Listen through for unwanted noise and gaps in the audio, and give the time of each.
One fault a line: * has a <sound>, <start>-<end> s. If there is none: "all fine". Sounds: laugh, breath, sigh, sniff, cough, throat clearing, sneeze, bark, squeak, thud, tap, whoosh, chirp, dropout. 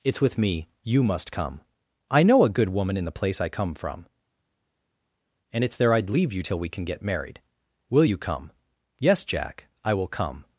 all fine